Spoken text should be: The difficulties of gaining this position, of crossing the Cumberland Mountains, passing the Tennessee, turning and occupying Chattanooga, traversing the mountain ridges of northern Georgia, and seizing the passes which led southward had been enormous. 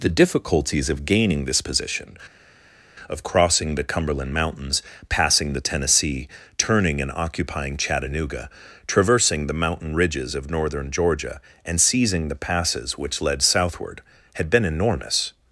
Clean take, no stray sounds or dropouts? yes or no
yes